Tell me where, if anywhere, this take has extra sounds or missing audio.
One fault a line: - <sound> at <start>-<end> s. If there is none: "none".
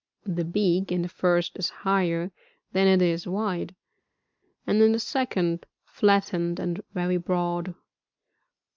none